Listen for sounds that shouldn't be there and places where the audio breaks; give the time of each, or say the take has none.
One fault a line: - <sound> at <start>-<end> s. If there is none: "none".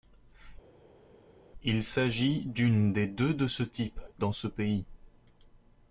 none